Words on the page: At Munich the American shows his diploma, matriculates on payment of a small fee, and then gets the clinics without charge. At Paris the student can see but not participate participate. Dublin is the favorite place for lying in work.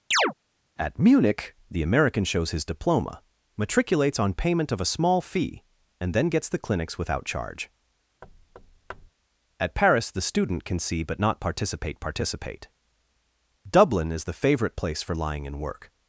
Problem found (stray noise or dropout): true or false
true